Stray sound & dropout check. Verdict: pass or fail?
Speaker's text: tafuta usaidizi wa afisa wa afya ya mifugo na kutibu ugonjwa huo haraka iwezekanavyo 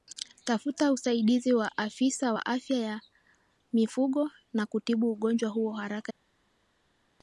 pass